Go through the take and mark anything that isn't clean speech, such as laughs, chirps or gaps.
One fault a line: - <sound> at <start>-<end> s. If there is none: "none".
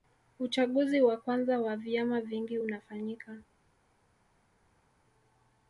none